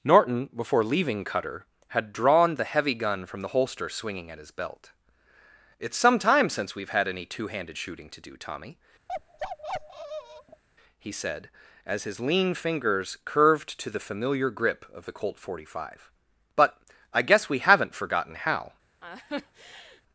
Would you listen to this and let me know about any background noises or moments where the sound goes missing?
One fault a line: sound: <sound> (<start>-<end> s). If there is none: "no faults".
sound: bark (9.1-10.6 s)
sound: laugh (19.0-20.0 s)